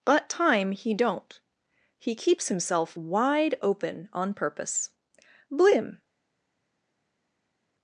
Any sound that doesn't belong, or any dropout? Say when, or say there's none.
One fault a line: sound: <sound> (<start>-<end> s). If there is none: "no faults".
no faults